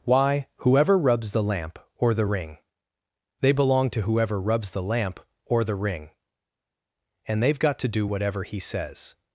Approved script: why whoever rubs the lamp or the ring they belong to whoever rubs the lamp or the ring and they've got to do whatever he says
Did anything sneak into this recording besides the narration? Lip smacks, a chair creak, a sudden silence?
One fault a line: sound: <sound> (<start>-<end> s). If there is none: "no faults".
no faults